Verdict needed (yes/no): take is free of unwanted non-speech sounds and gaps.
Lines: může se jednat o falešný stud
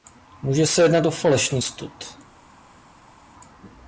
yes